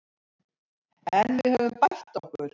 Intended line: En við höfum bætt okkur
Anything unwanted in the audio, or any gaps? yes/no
no